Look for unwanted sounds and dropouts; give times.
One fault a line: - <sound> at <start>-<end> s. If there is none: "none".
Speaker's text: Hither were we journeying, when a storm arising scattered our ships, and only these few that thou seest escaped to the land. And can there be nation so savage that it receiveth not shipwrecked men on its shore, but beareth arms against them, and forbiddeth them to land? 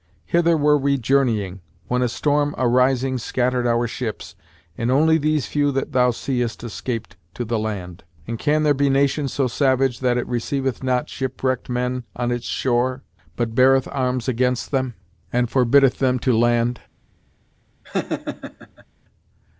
- laugh at 17.8-18.9 s